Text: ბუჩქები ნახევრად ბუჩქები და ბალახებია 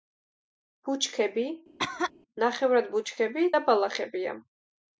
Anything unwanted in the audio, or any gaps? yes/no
yes